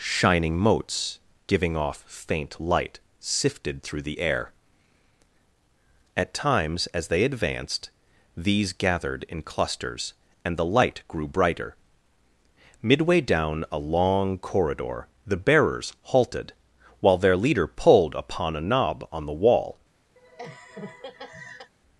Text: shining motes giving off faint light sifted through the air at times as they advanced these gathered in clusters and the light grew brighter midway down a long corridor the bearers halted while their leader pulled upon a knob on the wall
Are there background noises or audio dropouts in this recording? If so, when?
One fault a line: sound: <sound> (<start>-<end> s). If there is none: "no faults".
sound: laugh (20.2-21.7 s)